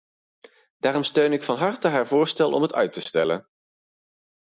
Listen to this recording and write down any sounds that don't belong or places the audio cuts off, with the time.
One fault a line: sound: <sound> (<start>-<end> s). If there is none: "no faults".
no faults